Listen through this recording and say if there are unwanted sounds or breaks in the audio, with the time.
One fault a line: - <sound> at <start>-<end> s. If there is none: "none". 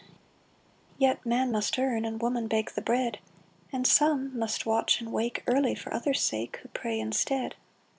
none